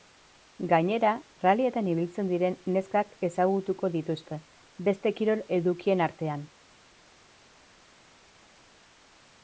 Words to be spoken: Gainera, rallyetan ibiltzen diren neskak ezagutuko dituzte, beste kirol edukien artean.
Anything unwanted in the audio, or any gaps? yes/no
no